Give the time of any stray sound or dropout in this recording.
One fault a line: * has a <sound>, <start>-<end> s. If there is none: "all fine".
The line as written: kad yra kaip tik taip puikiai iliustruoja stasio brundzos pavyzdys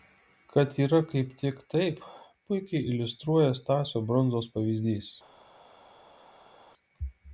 all fine